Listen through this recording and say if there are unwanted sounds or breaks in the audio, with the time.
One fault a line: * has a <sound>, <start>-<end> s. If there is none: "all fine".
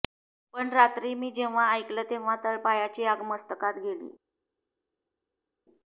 all fine